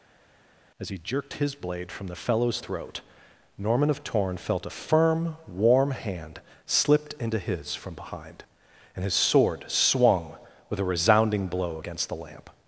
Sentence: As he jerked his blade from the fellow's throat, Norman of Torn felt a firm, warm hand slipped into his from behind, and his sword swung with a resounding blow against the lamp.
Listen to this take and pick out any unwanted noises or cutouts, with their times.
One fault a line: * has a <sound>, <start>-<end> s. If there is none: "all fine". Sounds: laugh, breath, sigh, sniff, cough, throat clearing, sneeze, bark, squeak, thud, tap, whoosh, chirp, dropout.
all fine